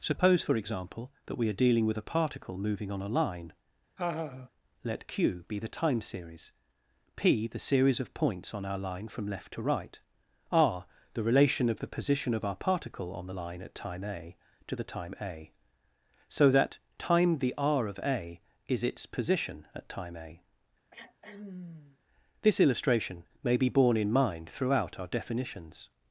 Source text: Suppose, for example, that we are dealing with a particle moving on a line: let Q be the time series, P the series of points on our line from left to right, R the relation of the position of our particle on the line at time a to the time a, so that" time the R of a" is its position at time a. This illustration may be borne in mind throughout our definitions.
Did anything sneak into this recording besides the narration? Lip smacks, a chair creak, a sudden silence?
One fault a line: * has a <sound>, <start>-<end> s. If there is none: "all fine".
* has a laugh, 4.0-4.5 s
* has a throat clearing, 20.9-22.0 s